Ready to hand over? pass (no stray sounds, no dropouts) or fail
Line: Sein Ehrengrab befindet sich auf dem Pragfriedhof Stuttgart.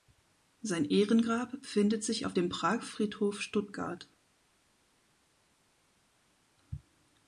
pass